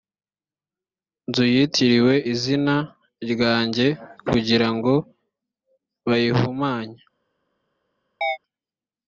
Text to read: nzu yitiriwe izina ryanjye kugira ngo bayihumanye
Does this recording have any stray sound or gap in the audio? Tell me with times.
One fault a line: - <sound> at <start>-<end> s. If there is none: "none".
- chirp at 8.2-8.4 s